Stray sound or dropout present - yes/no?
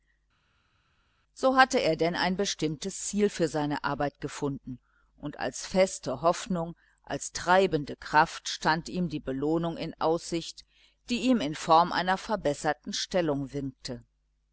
no